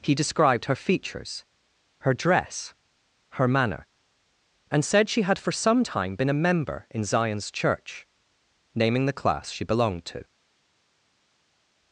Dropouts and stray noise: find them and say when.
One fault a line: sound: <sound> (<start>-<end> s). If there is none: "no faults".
no faults